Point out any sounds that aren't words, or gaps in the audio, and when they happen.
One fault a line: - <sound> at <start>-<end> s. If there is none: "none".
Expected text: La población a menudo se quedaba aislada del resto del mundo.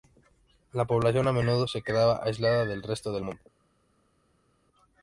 none